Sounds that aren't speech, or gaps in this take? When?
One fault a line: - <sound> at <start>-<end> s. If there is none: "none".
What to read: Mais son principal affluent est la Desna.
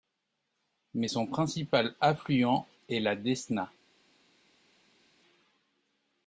none